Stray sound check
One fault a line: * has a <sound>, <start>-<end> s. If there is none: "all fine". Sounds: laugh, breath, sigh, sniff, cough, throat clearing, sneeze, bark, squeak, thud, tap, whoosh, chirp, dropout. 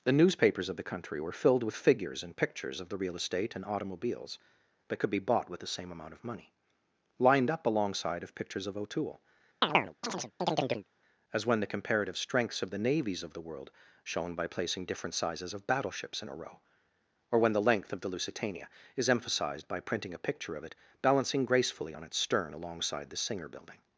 * has a chirp, 9.6-10.9 s